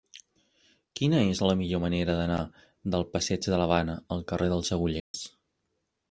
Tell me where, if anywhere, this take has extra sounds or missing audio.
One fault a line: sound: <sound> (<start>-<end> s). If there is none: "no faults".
sound: dropout (5.0-5.1 s)